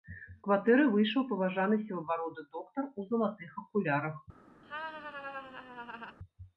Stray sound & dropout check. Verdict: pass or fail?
fail